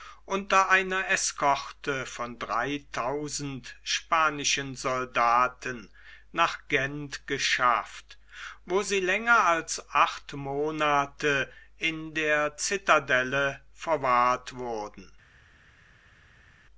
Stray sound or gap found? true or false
false